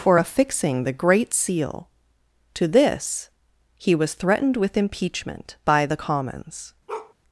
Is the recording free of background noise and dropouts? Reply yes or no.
no